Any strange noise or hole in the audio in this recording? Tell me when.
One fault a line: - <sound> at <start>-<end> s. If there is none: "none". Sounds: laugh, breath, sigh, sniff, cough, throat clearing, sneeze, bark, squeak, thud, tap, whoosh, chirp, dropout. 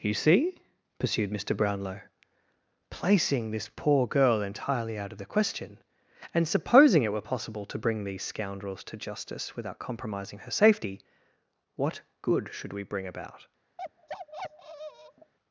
- bark at 13.8-15.3 s